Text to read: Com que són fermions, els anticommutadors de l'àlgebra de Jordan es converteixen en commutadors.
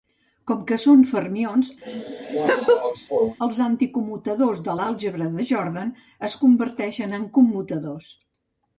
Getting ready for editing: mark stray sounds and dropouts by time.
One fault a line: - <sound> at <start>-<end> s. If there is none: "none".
- laugh at 1.8-3.4 s